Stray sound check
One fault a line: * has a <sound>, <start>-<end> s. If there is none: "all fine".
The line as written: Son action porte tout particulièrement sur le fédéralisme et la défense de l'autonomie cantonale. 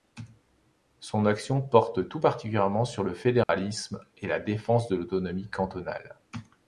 * has a dropout, 3.4-3.5 s